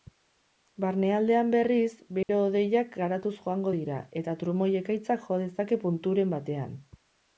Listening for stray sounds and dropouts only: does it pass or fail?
fail